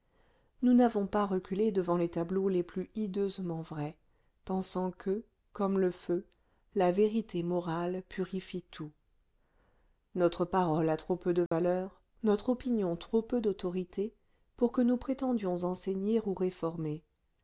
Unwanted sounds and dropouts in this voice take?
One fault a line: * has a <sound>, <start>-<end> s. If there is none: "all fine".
* has a dropout, 11.5-11.5 s